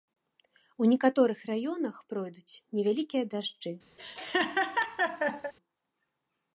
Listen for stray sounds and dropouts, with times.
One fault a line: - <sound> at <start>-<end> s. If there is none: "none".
- laugh at 4.0-5.5 s